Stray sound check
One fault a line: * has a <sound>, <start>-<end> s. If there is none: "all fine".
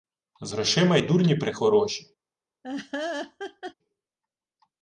* has a laugh, 2.6-3.7 s